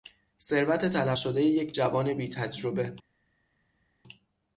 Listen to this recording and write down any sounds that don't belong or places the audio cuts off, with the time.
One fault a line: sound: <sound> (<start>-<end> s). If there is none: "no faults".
no faults